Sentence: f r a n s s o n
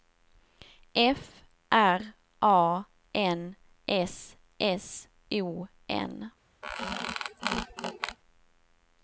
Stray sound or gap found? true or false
true